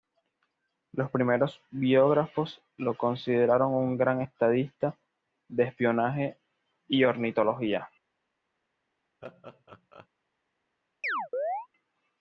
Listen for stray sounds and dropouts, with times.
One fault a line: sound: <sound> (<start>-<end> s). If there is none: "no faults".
sound: laugh (9.2-10.1 s)
sound: chirp (11.0-11.7 s)